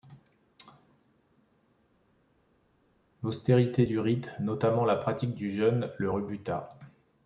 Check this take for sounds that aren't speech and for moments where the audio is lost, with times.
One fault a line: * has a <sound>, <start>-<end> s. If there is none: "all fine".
all fine